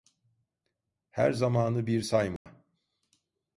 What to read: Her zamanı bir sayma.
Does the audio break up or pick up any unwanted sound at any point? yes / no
yes